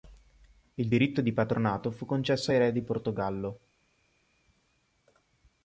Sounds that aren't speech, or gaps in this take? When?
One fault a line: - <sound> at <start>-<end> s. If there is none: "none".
none